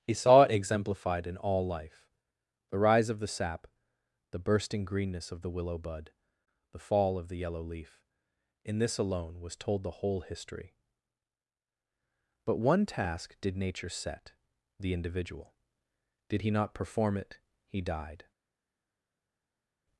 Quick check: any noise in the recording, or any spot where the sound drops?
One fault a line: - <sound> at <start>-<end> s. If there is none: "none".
none